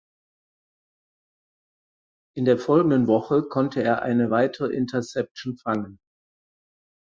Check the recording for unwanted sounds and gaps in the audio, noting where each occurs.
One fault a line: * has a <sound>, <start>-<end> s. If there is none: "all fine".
all fine